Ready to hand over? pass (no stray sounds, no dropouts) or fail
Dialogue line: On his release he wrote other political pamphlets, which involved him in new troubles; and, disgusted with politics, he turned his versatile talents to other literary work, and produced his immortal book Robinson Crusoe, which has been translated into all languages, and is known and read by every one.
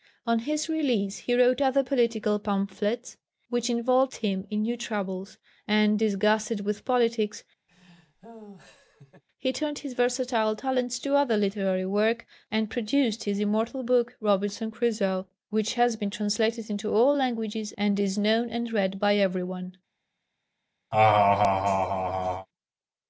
fail